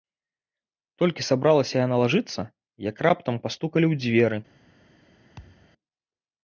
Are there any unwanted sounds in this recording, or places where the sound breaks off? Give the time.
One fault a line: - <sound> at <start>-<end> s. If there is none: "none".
- thud at 5.4-5.7 s